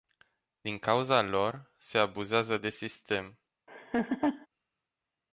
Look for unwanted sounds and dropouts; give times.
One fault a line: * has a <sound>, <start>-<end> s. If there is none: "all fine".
* has a laugh, 3.7-4.5 s